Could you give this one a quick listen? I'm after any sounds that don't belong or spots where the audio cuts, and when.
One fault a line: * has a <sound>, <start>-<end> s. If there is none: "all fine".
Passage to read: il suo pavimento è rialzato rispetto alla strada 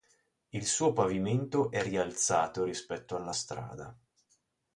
all fine